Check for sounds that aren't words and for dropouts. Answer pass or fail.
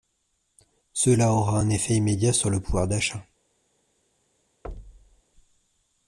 fail